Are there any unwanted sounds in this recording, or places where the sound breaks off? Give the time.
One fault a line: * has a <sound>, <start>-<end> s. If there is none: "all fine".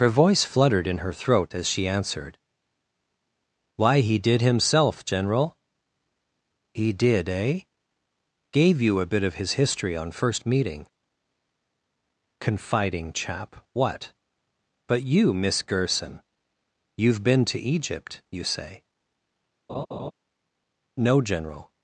* has a laugh, 19.7-20.1 s